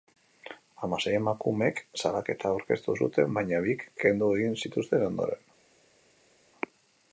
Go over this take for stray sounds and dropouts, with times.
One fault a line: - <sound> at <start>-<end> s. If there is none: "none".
none